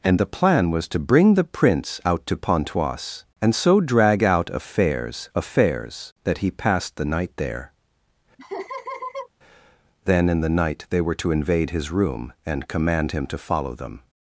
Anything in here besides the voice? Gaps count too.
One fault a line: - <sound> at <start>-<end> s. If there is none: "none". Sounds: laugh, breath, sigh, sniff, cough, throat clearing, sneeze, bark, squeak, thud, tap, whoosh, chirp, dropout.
- laugh at 8.4-9.3 s